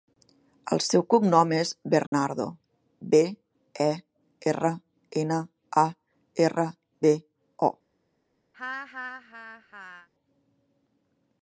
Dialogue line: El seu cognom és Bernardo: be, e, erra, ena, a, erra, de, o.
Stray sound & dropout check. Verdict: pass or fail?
fail